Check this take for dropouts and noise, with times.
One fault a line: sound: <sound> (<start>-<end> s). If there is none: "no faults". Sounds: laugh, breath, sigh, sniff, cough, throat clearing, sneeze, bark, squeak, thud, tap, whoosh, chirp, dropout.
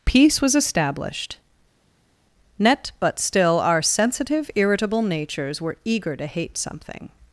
no faults